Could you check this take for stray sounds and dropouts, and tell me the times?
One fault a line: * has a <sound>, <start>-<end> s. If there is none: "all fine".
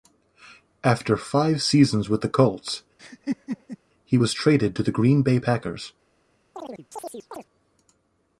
* has a laugh, 3.0-3.8 s
* has a chirp, 6.5-7.5 s